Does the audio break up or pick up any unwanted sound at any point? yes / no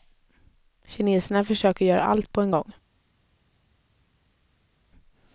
no